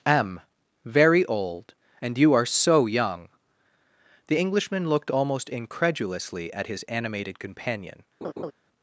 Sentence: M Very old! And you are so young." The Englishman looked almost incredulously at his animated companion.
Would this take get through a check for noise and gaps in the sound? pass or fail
fail